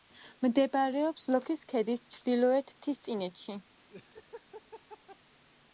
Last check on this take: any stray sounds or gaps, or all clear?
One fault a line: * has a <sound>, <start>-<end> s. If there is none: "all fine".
* has a laugh, 3.9-5.2 s